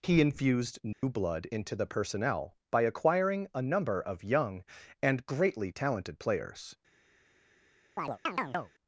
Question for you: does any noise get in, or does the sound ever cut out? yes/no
yes